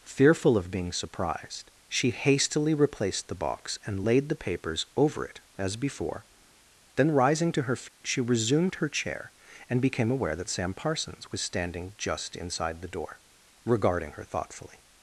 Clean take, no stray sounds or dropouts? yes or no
no